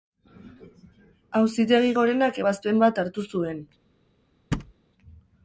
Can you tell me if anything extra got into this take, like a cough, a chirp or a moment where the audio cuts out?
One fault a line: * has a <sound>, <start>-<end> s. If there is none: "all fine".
* has a thud, 4.5-4.7 s